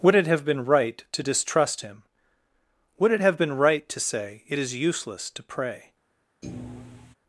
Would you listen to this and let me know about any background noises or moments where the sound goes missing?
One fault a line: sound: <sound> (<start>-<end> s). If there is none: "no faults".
sound: thud (6.4-7.1 s)